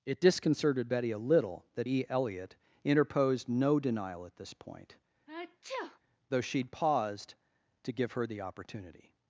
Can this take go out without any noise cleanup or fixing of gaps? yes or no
no